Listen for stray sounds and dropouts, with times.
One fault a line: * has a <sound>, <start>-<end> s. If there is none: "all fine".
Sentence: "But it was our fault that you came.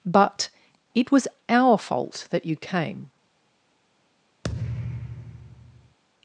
* has a thud, 4.4-6.0 s